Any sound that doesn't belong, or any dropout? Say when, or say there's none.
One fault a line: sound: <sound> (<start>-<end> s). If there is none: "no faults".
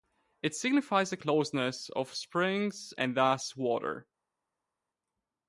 no faults